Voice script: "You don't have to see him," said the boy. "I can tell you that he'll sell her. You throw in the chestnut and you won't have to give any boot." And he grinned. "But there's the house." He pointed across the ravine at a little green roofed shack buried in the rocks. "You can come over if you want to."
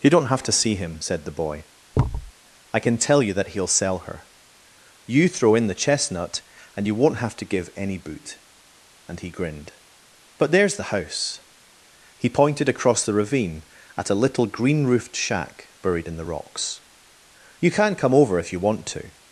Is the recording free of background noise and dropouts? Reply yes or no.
no